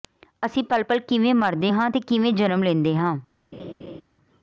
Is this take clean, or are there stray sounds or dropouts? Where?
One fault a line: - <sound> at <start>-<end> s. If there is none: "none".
- laugh at 3.5-4.0 s